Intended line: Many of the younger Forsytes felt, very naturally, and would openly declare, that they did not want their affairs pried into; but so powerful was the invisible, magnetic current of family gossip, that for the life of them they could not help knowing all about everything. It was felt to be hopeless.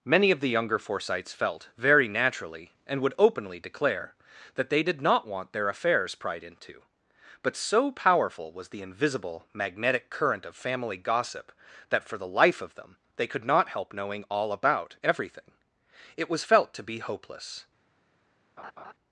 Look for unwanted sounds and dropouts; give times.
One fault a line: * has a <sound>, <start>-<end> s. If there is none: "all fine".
* has a laugh, 18.6-18.9 s